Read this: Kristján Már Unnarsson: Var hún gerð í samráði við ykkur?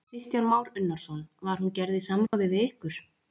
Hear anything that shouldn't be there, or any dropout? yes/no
yes